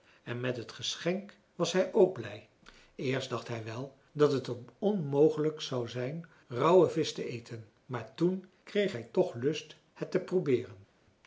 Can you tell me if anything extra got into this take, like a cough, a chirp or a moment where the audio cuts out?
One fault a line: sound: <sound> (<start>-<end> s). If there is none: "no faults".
no faults